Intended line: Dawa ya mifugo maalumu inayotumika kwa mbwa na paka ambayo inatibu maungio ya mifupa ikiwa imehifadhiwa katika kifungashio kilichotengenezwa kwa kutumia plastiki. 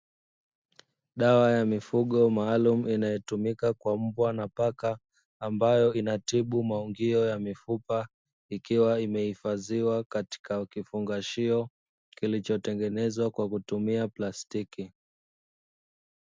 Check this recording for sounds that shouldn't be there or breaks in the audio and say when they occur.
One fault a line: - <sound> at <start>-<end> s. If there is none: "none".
none